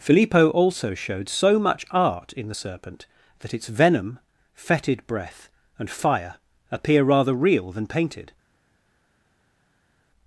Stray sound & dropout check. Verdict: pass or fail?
pass